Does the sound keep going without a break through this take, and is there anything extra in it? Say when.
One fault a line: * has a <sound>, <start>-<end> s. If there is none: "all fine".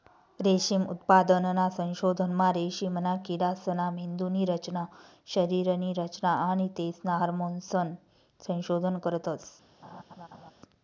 * has a laugh, 9.8-10.5 s